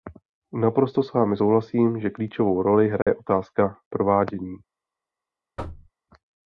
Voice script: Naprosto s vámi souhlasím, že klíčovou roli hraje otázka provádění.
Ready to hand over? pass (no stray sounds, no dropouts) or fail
fail